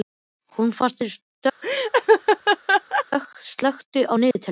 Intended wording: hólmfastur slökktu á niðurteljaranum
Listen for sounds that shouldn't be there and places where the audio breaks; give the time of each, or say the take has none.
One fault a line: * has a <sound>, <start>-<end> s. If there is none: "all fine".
* has a laugh, 1.6-3.1 s
* has a dropout, 4.3-4.4 s